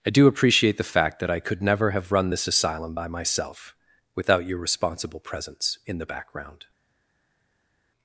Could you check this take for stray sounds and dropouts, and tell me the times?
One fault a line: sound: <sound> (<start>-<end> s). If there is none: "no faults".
no faults